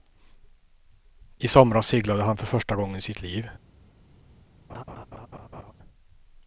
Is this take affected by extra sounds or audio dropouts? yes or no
yes